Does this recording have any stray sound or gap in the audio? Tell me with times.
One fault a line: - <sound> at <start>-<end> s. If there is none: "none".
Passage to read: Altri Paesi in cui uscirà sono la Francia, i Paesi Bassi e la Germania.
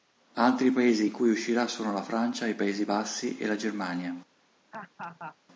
- laugh at 4.7-5.4 s